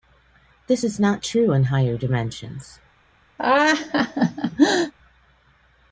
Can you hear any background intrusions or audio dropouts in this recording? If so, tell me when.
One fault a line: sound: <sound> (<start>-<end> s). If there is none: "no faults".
sound: laugh (3.4-4.9 s)